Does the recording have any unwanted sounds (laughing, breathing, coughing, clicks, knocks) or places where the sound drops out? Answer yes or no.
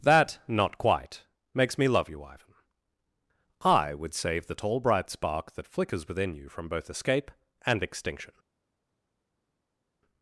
no